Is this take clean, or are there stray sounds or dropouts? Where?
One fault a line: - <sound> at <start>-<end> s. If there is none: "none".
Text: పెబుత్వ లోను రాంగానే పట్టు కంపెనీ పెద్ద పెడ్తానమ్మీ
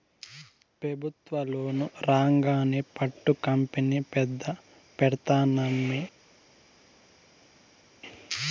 none